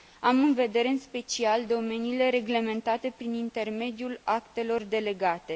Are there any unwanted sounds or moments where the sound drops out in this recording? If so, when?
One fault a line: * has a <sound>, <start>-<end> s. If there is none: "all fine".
all fine